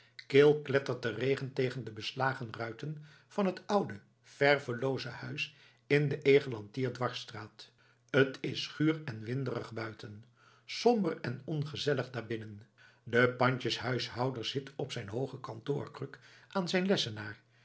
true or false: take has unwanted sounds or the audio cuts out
false